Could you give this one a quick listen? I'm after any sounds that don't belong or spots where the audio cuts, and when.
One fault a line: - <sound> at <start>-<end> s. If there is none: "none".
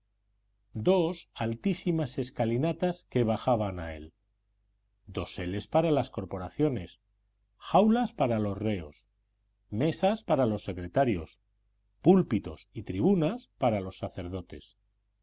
none